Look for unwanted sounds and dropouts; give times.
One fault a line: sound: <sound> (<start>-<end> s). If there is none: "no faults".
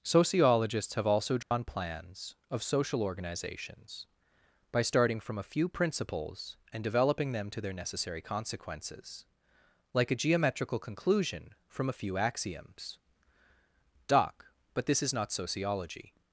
sound: dropout (1.4-1.5 s)